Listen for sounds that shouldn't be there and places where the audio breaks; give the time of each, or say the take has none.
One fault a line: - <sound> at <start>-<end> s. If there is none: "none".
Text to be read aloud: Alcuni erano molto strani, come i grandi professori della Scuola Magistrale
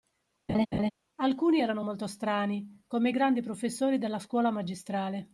- laugh at 0.5-0.9 s